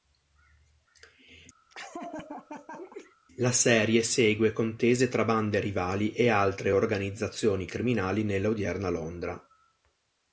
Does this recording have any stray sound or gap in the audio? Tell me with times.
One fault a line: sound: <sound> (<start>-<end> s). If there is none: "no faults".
sound: laugh (1.7-3.2 s)